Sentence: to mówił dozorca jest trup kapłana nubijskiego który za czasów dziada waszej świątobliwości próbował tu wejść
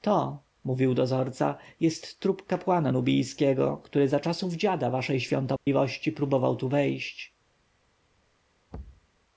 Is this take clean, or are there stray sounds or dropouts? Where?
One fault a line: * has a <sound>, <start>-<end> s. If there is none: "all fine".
* has a dropout, 5.6-5.7 s
* has a thud, 8.7-9.1 s